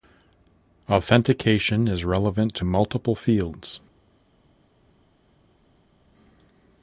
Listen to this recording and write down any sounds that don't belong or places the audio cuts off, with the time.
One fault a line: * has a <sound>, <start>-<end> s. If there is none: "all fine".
all fine